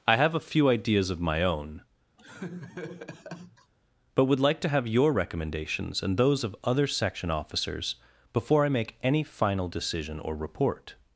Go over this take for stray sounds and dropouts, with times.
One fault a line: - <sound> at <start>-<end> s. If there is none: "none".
- laugh at 2.2-3.7 s